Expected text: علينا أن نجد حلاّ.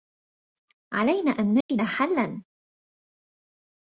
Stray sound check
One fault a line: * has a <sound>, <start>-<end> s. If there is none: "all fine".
* has a dropout, 1.6-1.7 s